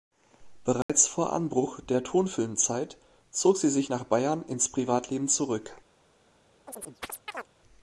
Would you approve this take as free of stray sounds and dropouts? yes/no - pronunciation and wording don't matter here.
no